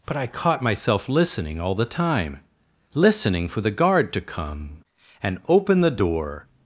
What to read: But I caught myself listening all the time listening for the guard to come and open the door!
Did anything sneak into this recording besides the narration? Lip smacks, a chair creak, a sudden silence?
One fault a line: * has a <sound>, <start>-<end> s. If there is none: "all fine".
all fine